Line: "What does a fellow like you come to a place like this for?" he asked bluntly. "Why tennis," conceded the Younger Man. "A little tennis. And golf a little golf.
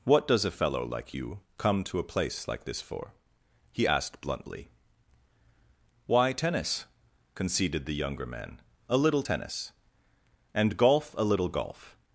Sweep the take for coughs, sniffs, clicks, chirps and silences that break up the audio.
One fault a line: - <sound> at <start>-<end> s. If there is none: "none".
none